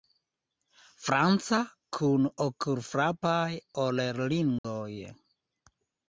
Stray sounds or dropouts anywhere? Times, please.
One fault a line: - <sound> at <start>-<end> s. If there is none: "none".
- dropout at 4.6-4.6 s